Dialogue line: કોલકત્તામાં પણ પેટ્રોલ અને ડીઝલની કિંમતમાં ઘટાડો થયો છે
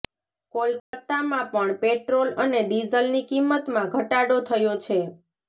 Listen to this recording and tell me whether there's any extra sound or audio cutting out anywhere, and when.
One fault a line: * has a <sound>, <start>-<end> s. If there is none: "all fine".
* has a dropout, 0.8-0.9 s